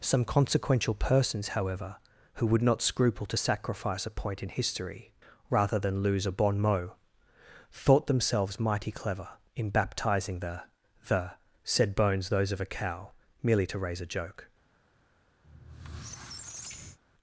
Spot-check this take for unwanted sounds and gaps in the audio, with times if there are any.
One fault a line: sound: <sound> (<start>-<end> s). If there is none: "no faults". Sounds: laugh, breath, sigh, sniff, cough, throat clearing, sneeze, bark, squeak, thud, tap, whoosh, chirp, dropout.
sound: squeak (15.4-17.0 s)